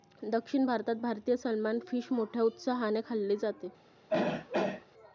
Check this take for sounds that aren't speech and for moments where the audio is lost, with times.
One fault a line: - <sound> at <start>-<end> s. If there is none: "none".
- throat clearing at 4.1-4.9 s